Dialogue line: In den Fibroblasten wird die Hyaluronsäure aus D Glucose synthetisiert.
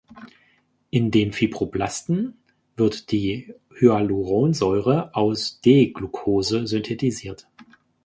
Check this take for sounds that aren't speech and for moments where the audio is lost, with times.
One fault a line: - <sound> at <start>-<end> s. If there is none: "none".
none